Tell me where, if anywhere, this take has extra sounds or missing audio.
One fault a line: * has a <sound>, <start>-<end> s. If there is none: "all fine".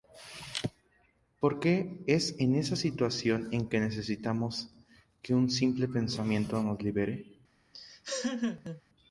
* has a laugh, 7.7-8.8 s